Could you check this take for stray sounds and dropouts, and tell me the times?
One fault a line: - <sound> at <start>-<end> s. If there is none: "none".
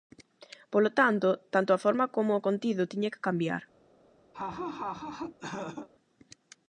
- laugh at 4.3-5.9 s